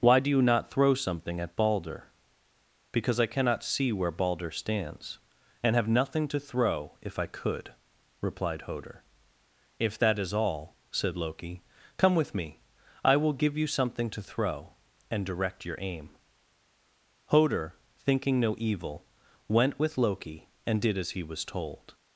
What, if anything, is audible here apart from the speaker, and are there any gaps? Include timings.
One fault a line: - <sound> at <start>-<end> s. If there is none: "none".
none